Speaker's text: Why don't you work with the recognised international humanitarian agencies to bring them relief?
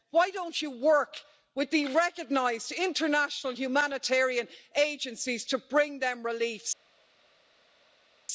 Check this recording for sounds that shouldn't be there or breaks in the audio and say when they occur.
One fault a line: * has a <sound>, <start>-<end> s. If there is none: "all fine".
all fine